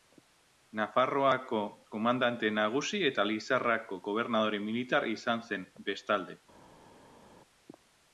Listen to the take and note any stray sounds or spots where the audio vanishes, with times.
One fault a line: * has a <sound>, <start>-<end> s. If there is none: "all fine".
all fine